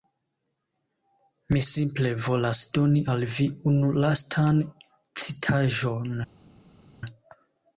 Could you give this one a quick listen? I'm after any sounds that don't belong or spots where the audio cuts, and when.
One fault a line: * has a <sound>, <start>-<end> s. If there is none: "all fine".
all fine